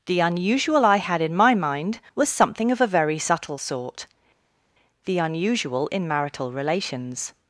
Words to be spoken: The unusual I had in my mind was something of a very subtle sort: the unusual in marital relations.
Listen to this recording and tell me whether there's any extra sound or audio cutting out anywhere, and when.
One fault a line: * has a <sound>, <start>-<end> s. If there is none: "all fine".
all fine